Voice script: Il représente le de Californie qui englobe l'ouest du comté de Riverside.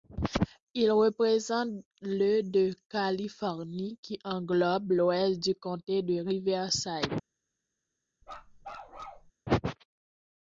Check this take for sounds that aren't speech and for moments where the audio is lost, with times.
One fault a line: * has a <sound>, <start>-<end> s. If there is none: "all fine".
* has a bark, 8.2-9.3 s